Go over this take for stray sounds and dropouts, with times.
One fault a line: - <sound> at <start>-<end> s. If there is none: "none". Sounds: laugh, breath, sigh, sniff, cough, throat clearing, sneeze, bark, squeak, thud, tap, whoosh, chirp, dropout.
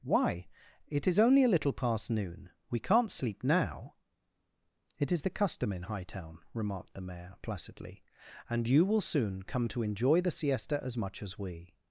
none